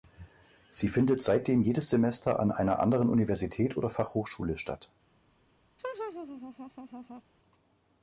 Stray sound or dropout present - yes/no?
yes